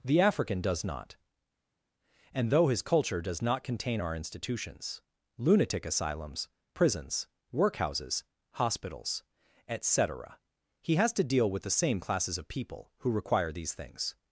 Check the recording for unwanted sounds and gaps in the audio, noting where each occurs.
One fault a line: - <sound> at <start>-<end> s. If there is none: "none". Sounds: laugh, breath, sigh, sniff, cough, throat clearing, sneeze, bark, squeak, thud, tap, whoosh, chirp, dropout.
none